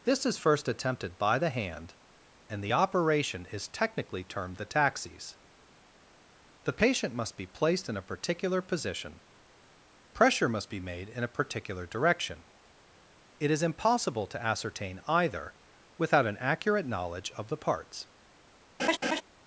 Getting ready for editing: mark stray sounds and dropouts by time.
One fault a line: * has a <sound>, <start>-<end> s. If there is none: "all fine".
* has a laugh, 18.8-19.2 s